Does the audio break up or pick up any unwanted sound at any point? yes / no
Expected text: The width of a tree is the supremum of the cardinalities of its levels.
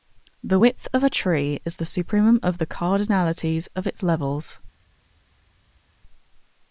no